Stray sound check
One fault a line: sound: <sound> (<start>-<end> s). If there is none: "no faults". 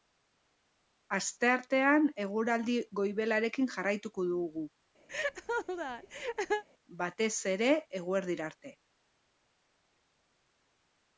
sound: laugh (5.1-6.6 s)